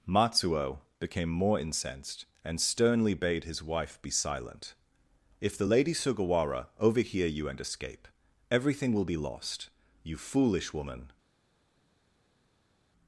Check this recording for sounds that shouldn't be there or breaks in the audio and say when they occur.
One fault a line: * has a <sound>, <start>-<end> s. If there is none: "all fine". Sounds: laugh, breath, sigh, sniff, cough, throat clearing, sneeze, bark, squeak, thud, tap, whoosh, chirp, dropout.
all fine